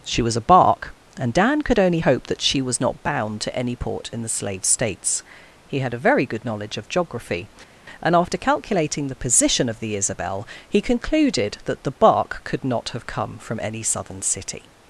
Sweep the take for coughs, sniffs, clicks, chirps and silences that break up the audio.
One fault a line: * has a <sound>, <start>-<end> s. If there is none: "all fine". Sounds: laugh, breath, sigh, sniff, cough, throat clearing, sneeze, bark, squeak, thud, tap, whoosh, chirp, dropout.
all fine